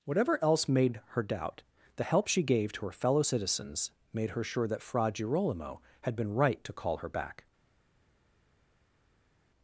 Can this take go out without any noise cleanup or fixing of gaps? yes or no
yes